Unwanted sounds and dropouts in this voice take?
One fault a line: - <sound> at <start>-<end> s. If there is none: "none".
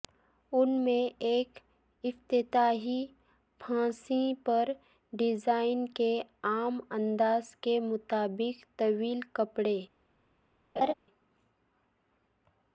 - laugh at 10.8-10.9 s